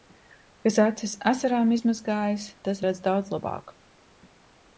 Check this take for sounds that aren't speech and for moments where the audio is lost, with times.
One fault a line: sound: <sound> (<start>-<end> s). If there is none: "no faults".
no faults